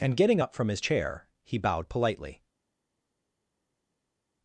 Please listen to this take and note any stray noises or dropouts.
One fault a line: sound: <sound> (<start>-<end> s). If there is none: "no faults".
no faults